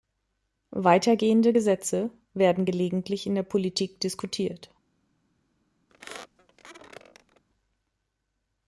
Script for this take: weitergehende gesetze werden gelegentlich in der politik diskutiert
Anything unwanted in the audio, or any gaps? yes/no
yes